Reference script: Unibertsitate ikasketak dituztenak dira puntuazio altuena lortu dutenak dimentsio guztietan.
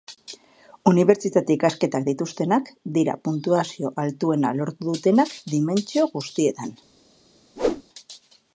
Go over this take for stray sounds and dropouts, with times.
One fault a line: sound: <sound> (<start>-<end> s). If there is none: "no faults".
sound: whoosh (7.6-7.8 s)